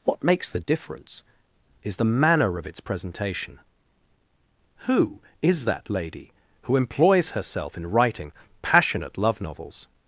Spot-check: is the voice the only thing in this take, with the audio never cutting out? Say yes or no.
yes